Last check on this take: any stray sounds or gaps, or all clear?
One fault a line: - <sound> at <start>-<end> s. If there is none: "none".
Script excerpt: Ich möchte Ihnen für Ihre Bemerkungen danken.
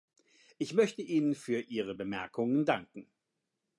none